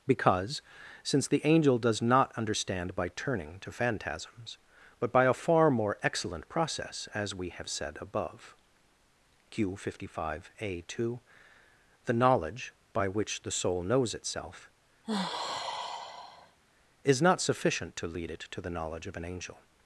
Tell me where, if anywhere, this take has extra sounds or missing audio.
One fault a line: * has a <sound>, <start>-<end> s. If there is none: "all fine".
* has a sigh, 15.0-16.6 s